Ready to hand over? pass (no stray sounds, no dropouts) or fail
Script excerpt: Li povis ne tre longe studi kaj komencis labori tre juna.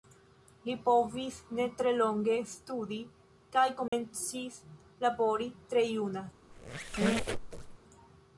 fail